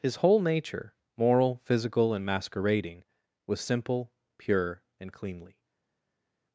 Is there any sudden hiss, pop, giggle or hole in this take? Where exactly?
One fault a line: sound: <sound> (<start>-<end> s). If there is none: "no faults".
no faults